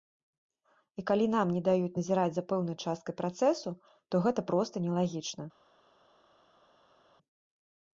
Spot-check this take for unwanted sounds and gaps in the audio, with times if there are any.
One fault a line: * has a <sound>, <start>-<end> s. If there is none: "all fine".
all fine